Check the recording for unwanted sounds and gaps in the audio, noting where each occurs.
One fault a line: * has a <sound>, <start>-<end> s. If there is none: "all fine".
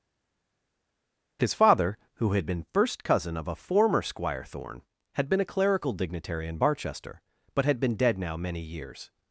all fine